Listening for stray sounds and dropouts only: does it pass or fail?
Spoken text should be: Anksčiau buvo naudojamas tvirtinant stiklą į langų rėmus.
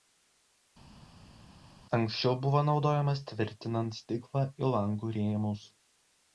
pass